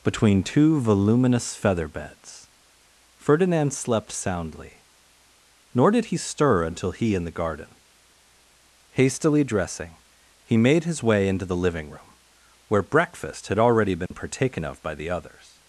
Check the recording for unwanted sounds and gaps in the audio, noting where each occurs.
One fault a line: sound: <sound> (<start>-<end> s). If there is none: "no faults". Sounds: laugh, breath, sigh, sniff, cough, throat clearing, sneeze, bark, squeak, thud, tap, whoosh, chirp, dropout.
sound: dropout (14.1-14.1 s)